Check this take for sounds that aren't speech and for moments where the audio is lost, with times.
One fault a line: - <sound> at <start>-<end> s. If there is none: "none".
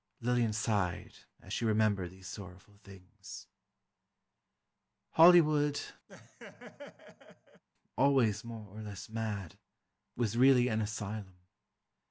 - laugh at 6.1-7.6 s